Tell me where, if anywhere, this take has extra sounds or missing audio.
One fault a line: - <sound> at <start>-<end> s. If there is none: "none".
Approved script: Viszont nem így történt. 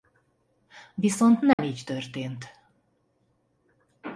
- dropout at 1.5-1.6 s